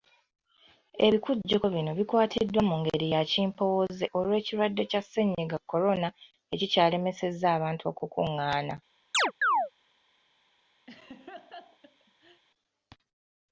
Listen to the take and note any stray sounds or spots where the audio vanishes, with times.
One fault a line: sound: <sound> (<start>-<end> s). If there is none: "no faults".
sound: chirp (9.1-9.7 s)
sound: laugh (10.9-12.4 s)